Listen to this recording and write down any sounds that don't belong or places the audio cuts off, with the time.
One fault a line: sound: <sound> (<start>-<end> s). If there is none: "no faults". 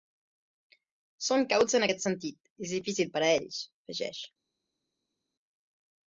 no faults